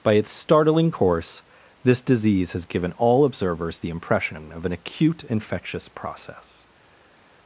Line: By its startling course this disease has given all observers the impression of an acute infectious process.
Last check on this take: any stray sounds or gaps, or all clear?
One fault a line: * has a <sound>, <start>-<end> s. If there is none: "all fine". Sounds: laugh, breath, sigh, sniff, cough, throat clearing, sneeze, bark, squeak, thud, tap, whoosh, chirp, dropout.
all fine